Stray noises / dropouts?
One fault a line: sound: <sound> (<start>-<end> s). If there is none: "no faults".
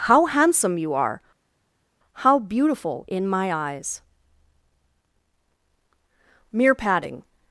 no faults